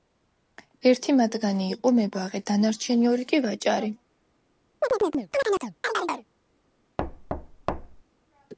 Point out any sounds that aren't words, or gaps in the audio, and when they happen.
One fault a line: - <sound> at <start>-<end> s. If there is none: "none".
- chirp at 4.8-6.3 s
- thud at 7.0-8.0 s